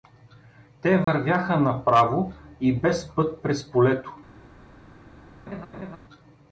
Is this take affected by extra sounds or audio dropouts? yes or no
yes